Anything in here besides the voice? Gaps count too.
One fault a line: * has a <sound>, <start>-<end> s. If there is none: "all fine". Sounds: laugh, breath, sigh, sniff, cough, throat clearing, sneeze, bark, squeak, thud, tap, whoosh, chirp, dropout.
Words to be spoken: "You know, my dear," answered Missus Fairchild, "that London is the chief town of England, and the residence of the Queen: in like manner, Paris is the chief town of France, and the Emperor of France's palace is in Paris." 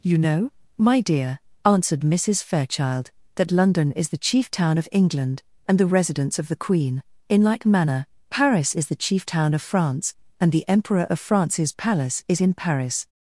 all fine